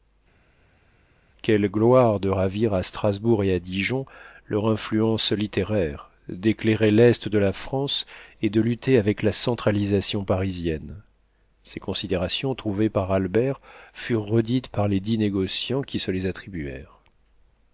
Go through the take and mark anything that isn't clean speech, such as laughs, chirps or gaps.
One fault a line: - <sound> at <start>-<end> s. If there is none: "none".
none